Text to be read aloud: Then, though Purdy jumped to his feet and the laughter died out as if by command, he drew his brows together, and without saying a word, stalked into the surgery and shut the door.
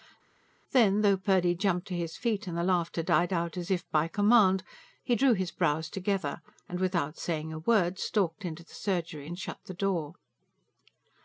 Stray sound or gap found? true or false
false